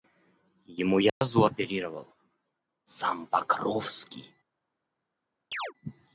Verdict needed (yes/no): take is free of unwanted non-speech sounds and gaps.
no